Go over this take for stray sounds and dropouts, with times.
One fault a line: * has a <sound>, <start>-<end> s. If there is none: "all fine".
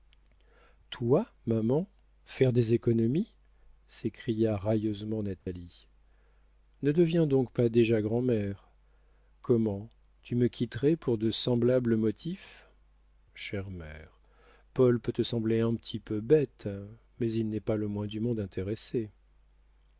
* has a dropout, 5.4-5.5 s